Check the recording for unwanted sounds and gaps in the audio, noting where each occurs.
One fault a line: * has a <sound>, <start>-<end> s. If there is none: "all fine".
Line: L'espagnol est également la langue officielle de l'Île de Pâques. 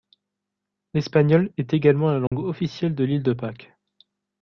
* has a dropout, 2.3-2.3 s